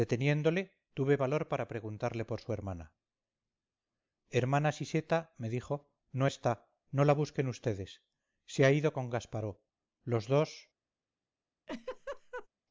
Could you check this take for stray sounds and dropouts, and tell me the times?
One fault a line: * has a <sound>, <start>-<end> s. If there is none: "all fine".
* has a laugh, 11.7-12.5 s